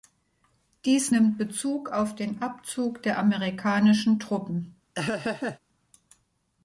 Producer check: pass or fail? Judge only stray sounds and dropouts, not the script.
fail